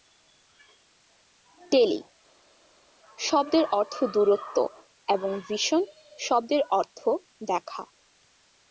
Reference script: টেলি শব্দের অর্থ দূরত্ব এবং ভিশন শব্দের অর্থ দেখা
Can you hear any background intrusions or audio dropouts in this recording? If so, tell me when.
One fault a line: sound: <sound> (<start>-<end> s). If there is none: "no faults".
no faults